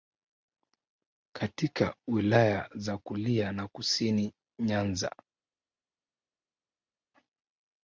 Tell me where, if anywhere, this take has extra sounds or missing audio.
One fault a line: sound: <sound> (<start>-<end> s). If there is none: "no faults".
no faults